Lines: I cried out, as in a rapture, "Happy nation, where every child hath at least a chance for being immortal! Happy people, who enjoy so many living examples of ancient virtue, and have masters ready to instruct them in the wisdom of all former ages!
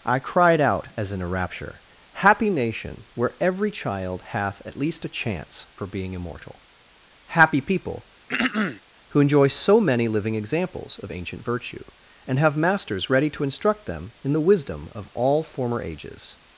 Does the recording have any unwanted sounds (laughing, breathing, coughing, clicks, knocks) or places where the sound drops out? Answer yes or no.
yes